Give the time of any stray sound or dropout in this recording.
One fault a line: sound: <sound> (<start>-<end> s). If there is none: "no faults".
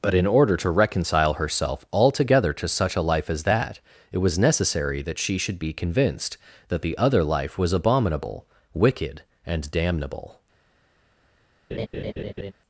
sound: laugh (11.7-12.5 s)